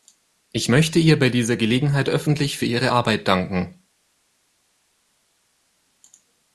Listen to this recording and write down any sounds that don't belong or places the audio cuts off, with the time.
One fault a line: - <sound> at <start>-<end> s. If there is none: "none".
none